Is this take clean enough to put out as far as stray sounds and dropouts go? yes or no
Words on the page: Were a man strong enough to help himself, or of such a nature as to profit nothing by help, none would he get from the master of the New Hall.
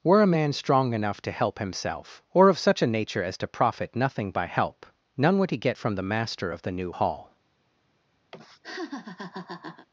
no